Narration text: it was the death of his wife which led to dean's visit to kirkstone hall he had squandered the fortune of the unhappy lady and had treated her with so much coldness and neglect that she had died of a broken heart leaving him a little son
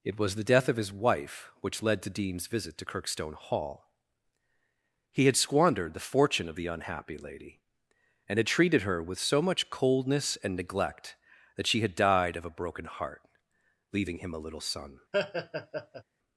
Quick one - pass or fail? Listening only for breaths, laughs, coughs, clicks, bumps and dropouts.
fail